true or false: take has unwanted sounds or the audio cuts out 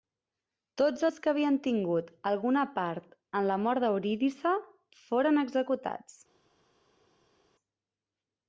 false